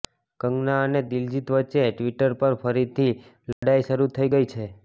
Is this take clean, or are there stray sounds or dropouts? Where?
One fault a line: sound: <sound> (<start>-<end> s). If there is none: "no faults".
sound: dropout (3.5-3.6 s)